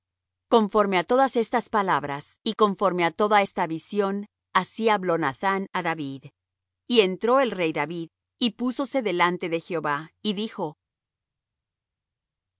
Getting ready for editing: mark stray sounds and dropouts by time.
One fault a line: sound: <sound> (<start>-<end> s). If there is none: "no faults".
no faults